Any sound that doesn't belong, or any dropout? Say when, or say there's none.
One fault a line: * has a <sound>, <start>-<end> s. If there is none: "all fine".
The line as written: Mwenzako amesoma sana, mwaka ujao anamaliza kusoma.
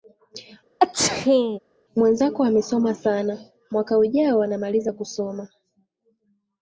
* has a sneeze, 0.8-1.6 s